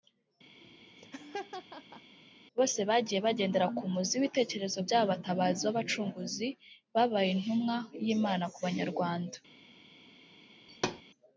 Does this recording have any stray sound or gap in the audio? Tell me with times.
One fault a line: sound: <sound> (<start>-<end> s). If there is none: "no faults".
sound: laugh (0.6-2.1 s)
sound: thud (10.7-11.0 s)